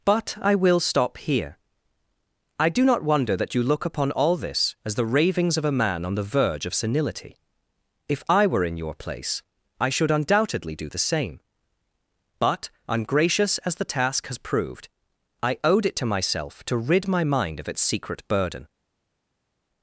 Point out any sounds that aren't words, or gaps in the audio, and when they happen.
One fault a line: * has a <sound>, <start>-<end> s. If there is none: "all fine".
all fine